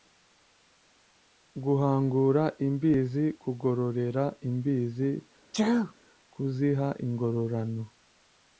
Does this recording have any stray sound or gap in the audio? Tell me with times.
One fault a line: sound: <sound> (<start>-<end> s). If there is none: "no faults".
sound: sneeze (5.5-5.9 s)